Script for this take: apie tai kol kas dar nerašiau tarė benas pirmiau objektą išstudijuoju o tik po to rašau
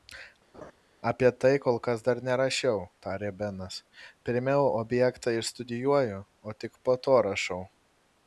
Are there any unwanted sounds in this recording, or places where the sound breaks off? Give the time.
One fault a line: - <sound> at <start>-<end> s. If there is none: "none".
- laugh at 0.5-0.7 s